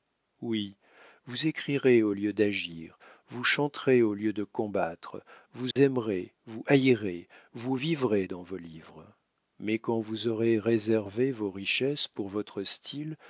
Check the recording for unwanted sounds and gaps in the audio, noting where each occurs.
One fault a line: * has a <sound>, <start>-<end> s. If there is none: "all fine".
* has a dropout, 5.7-5.8 s